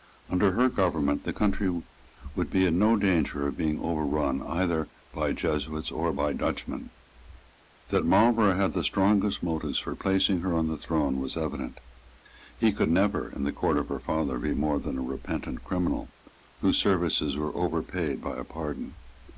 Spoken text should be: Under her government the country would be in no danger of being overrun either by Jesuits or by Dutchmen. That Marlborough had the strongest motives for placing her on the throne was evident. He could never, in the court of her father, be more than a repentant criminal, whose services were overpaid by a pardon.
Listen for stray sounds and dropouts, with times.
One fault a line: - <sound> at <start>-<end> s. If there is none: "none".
none